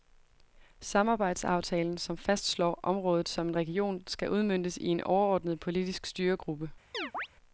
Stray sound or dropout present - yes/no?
yes